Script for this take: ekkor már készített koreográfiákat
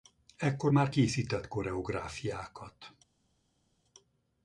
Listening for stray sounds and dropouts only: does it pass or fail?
pass